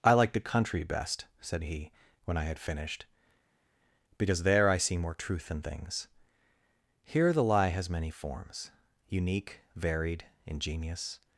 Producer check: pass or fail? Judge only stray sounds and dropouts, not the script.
pass